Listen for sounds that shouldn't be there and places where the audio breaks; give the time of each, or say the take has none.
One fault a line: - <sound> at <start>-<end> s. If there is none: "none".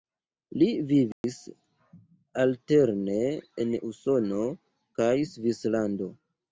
- dropout at 1.1-1.2 s